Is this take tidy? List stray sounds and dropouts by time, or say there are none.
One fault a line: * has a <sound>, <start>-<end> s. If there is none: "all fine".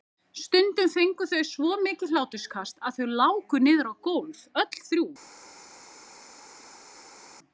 all fine